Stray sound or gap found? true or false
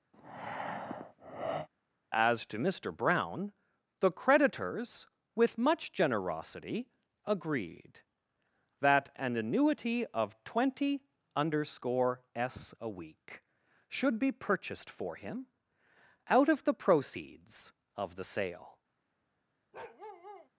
true